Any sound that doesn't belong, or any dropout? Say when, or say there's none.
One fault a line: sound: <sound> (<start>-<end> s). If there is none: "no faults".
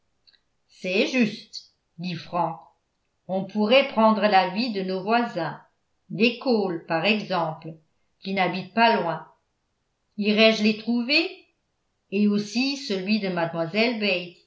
no faults